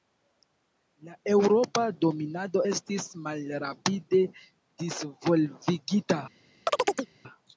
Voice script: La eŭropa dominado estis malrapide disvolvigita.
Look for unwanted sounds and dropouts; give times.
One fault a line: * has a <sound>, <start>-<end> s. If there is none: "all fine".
* has a chirp, 6.7-7.1 s